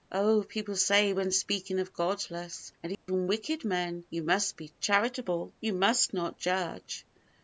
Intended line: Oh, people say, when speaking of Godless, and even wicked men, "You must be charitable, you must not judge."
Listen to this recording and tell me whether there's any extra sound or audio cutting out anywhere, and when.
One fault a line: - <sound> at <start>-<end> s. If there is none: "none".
- dropout at 2.9-3.1 s